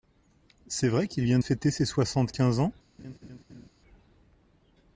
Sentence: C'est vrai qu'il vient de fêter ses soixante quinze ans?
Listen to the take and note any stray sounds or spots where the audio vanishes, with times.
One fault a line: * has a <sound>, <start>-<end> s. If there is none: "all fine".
* has a laugh, 3.0-3.7 s